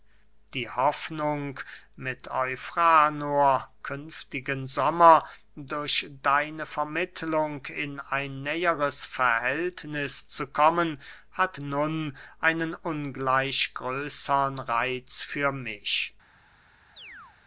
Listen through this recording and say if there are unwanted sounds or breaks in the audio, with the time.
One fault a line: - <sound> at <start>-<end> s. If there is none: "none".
- chirp at 16.9-17.4 s